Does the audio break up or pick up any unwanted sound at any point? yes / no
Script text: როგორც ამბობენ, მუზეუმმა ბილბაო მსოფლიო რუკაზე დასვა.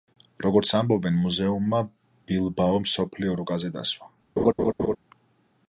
yes